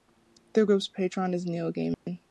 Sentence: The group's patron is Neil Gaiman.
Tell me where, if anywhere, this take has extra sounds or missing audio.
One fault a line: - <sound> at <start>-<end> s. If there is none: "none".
- dropout at 1.9-2.1 s